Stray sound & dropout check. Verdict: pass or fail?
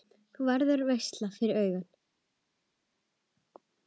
pass